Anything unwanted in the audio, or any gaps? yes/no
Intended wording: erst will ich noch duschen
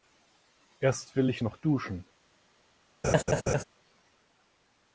yes